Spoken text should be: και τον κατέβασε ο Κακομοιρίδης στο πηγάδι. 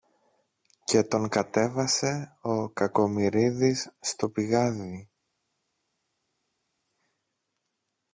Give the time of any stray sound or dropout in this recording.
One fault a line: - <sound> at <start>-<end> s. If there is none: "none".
none